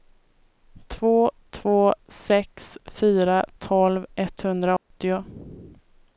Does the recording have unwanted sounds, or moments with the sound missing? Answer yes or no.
yes